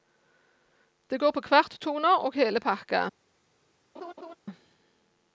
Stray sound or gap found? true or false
true